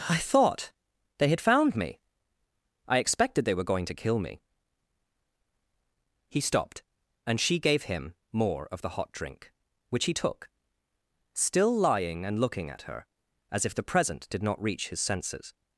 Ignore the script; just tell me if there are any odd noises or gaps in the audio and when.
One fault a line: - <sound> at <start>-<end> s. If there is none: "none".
none